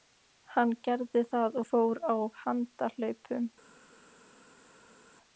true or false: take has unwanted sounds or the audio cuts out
false